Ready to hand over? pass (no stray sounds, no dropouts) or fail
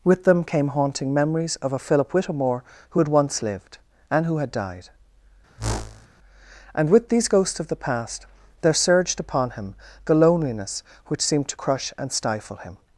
fail